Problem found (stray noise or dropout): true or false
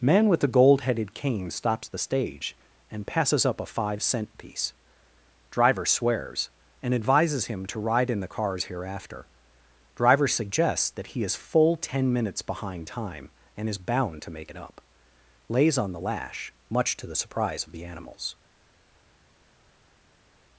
false